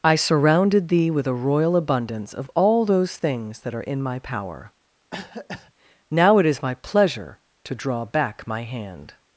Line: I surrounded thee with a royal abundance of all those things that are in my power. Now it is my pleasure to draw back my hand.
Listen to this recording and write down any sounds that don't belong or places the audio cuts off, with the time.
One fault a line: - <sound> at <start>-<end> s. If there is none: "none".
- cough at 5.1-5.7 s